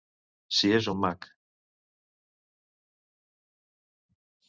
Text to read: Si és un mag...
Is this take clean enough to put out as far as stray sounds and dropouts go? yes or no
yes